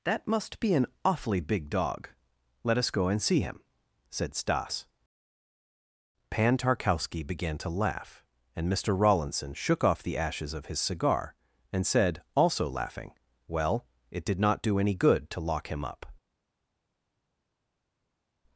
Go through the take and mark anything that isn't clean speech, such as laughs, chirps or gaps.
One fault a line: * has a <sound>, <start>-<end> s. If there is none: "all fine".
all fine